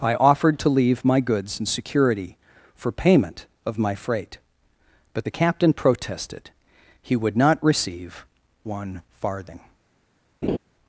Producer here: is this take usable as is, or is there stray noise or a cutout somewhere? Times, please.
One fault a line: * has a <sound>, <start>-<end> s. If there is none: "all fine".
* has a laugh, 10.4-10.6 s